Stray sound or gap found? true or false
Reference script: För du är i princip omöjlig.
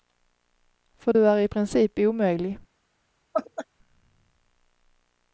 true